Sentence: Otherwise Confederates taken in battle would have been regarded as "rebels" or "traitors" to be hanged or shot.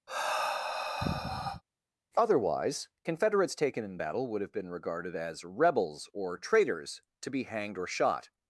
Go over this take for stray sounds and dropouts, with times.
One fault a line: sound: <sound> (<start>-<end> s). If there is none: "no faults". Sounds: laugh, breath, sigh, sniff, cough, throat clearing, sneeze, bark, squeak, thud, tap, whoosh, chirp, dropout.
sound: sigh (0.1-1.6 s)